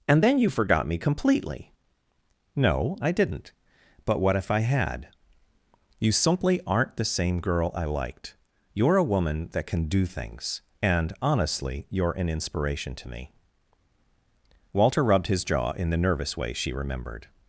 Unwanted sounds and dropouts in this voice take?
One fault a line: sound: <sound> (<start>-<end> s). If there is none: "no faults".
no faults